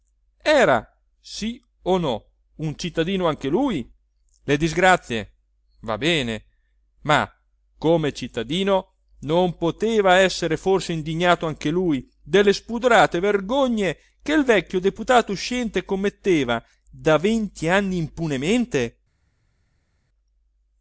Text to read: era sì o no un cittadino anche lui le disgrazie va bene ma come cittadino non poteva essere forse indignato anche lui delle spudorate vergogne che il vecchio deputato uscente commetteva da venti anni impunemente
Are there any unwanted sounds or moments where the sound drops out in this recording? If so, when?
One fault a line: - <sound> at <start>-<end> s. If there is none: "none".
none